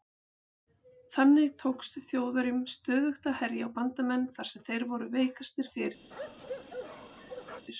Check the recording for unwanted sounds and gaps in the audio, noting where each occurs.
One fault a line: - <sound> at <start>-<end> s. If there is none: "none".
- bark at 6.1-7.7 s